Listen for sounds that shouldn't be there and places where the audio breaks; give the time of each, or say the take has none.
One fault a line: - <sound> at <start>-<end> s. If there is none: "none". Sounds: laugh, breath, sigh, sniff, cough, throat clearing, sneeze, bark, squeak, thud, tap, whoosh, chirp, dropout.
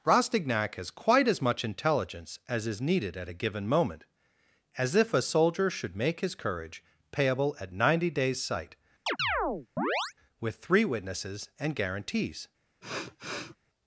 - chirp at 9.1-10.1 s
- sniff at 12.8-13.6 s